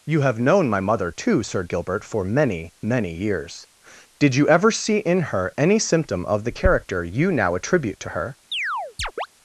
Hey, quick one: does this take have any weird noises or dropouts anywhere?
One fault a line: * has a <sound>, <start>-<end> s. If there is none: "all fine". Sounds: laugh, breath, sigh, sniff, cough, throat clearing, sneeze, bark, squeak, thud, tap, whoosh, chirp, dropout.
* has a chirp, 8.5-9.3 s